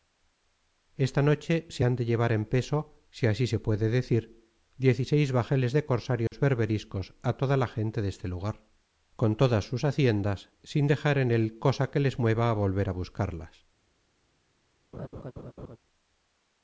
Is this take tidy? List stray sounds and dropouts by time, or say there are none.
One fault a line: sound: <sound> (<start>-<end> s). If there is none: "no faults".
sound: dropout (6.3-6.3 s)
sound: laugh (14.9-15.8 s)